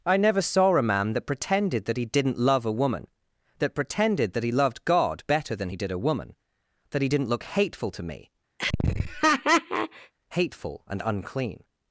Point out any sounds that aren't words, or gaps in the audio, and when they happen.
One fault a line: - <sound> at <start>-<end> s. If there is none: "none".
- laugh at 8.6-10.1 s